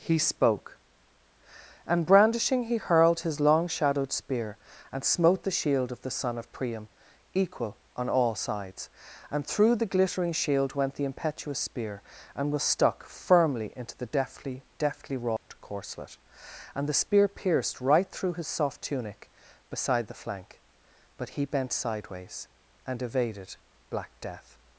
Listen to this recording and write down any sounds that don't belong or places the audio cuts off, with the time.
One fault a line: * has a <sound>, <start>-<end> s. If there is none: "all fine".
* has a dropout, 15.4-15.5 s